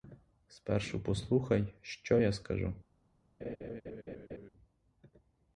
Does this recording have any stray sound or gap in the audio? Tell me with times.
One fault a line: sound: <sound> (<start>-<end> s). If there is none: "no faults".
sound: laugh (3.4-4.5 s)